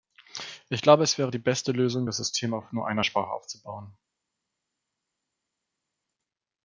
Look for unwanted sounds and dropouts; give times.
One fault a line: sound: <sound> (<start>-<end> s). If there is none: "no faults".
no faults